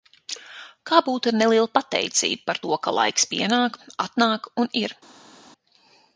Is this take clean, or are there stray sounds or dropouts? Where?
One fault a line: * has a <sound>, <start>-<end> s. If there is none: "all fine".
all fine